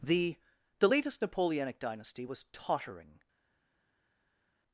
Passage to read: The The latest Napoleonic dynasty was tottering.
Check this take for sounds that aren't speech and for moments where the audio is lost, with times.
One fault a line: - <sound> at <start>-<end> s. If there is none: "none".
none